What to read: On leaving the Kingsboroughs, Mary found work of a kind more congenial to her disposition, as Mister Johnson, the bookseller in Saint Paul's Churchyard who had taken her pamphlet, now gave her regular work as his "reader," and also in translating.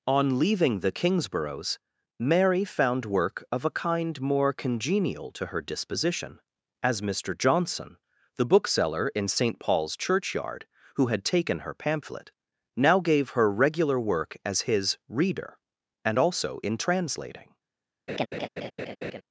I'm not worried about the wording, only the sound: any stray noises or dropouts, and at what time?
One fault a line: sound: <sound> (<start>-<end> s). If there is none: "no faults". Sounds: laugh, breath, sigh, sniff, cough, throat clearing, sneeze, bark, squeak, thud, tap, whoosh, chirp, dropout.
sound: laugh (18.1-19.2 s)